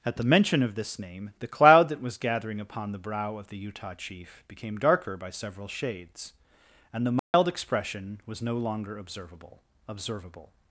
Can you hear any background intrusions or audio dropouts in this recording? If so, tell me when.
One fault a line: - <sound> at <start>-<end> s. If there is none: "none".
- dropout at 7.2-7.3 s